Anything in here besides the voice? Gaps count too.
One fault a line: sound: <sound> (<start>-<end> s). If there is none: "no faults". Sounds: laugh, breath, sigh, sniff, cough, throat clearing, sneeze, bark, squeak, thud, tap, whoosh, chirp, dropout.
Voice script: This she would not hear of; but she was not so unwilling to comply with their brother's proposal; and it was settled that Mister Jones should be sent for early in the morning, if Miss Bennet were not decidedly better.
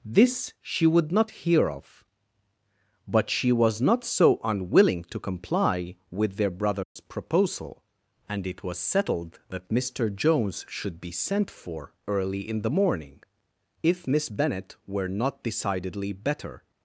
sound: dropout (6.8-7.0 s)